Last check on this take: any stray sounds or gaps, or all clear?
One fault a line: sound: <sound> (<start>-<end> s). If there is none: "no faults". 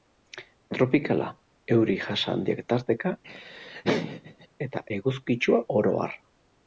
sound: laugh (3.2-4.5 s)